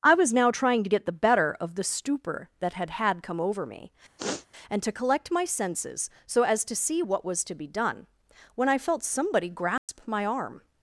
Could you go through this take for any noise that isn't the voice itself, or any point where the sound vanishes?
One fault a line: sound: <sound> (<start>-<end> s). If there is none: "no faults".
sound: sniff (4.2-4.5 s)
sound: dropout (9.8-9.9 s)